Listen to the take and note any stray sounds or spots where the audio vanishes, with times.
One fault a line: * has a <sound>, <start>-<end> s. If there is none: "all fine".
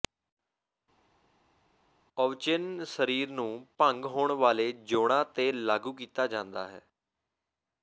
all fine